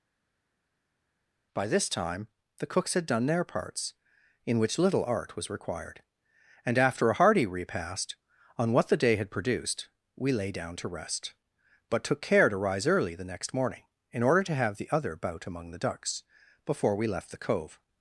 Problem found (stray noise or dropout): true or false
false